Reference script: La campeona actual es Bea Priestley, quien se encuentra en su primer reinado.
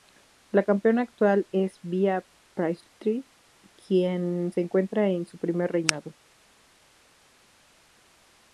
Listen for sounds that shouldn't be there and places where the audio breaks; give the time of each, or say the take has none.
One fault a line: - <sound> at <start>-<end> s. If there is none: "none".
none